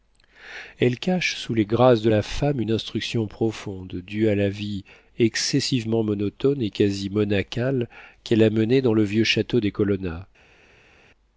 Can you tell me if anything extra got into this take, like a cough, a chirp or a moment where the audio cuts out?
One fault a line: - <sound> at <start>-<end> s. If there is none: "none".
none